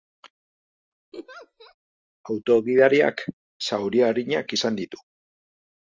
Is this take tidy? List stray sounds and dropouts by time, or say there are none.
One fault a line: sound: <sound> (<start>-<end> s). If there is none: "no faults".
sound: laugh (1.1-1.8 s)